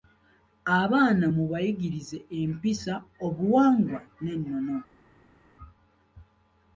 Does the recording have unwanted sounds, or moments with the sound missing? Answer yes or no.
no